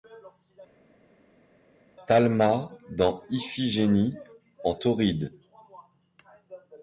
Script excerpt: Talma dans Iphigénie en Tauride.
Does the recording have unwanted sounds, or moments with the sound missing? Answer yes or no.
no